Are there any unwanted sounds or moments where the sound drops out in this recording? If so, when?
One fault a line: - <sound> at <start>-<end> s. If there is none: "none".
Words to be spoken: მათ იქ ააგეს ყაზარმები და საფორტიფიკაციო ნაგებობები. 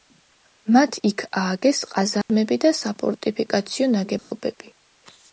- dropout at 2.2-2.3 s
- dropout at 4.2-4.3 s